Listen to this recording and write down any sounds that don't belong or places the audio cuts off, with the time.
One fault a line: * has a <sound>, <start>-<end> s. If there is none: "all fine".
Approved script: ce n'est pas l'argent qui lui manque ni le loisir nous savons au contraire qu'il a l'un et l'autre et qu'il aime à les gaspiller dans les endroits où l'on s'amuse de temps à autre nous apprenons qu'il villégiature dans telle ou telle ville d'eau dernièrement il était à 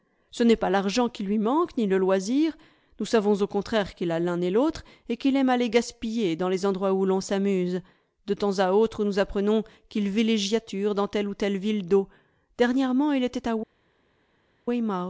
all fine